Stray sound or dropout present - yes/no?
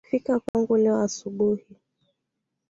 yes